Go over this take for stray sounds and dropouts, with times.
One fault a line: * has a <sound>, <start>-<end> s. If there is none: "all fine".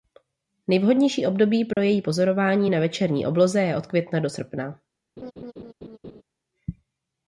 * has a dropout, 1.7-1.8 s
* has a laugh, 5.2-6.2 s